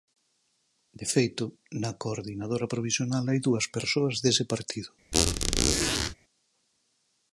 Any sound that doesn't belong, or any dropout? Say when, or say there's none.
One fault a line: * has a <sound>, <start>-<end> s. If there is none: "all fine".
* has a squeak, 5.1-6.1 s